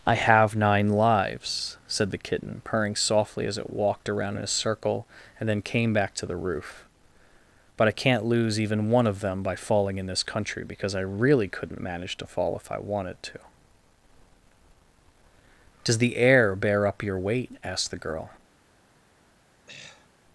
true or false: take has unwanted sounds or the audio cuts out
true